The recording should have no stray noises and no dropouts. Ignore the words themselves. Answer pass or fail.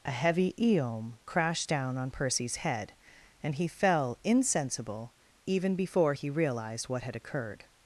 pass